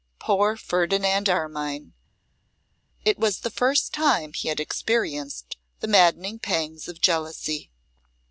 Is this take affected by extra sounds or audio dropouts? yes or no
no